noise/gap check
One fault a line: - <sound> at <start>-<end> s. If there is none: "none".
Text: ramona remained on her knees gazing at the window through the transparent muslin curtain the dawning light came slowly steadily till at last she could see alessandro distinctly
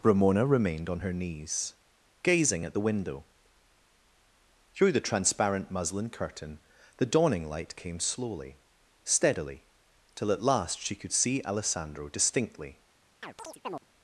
- chirp at 13.2-13.8 s